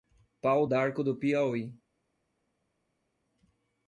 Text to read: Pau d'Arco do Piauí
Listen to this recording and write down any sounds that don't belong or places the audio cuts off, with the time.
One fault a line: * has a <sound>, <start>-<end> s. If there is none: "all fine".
all fine